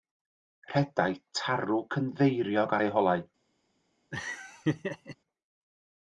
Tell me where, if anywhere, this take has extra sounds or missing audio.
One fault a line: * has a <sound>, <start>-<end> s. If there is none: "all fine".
* has a laugh, 4.1-5.2 s